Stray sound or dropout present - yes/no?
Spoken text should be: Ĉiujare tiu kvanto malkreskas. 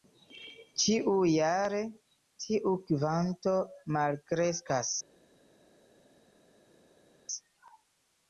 no